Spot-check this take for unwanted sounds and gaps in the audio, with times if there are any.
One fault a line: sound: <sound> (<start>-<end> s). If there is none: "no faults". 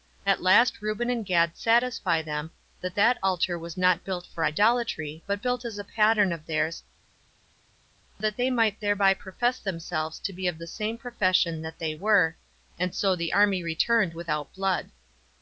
no faults